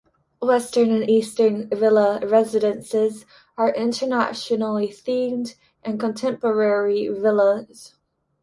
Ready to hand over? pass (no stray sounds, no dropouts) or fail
pass